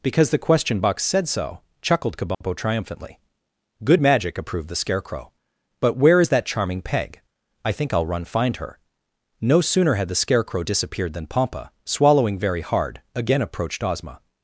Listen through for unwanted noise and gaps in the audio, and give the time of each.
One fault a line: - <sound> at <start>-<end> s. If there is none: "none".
- dropout at 2.3-2.4 s